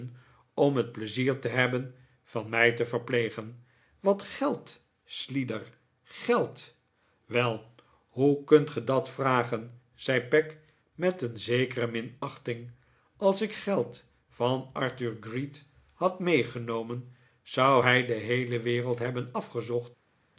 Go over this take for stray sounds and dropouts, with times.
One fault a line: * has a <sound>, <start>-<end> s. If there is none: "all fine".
all fine